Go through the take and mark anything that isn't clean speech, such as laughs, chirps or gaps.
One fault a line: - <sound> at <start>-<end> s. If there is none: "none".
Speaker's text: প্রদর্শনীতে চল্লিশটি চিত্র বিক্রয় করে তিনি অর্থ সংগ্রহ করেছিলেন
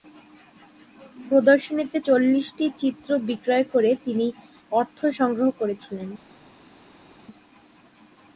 none